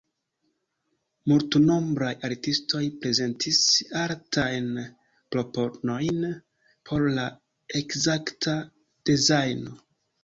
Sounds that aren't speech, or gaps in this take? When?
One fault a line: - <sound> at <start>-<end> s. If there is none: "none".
none